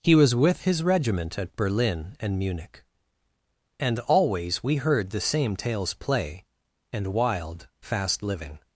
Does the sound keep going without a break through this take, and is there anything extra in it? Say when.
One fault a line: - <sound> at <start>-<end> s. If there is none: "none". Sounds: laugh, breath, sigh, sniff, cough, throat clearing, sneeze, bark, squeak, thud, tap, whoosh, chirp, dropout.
none